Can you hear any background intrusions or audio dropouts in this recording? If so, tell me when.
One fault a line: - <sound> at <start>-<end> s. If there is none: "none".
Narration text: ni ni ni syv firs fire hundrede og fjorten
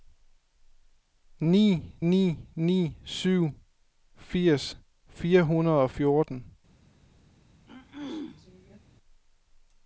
- throat clearing at 7.7-8.8 s